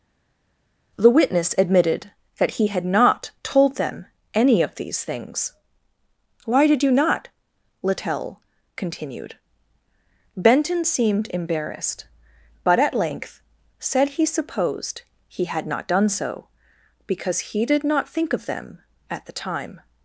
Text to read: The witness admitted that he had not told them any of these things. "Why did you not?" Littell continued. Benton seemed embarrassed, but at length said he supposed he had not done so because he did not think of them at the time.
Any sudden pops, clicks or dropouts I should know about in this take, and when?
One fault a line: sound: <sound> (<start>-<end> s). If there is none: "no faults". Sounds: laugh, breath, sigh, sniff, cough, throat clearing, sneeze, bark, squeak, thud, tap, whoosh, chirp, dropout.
no faults